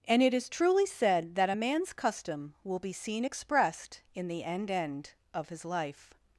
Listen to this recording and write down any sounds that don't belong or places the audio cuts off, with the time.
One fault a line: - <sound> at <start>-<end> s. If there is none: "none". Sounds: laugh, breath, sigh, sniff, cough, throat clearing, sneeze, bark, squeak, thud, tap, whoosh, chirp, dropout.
none